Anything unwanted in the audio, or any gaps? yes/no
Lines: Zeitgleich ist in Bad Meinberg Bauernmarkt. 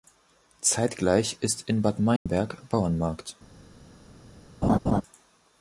yes